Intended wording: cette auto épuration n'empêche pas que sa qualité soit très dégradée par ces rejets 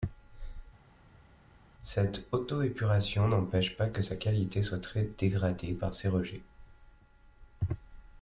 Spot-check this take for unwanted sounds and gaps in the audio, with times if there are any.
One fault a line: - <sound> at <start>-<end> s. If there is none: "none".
none